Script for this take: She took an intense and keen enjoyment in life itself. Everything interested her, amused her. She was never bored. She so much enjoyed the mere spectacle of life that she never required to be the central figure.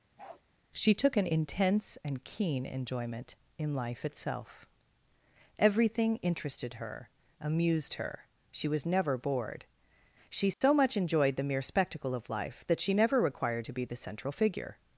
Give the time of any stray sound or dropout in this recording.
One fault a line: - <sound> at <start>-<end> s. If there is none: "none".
- bark at 0.2-0.4 s
- dropout at 10.5-10.6 s